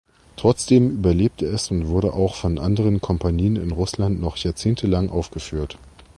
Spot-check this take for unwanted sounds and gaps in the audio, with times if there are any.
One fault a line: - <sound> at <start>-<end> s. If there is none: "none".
none